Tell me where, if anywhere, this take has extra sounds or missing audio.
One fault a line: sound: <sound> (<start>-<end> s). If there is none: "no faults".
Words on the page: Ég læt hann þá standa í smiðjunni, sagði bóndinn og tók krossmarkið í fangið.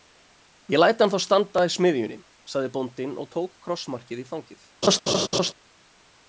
sound: laugh (4.8-5.5 s)